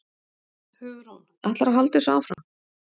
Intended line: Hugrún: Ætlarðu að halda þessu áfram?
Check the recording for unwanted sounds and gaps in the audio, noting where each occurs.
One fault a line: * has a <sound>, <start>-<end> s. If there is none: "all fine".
* has a dropout, 2.3-2.4 s